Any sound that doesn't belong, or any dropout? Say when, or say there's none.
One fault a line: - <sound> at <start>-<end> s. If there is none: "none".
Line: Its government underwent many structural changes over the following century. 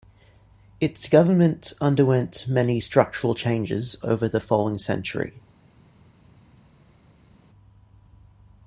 none